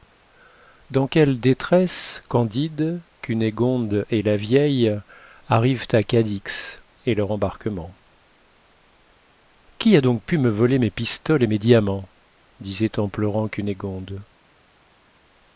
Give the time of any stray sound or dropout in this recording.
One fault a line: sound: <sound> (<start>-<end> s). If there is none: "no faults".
no faults